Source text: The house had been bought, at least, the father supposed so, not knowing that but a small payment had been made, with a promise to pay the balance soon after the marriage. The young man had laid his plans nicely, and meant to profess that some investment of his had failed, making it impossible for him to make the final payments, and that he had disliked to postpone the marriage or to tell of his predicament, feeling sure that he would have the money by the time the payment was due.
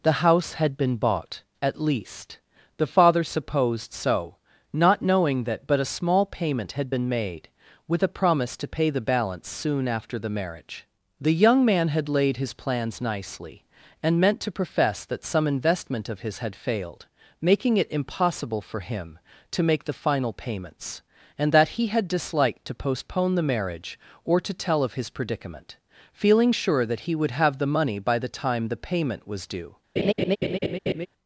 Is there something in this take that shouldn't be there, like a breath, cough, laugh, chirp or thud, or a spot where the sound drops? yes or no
yes